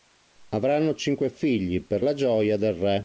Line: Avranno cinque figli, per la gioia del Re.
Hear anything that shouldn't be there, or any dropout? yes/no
no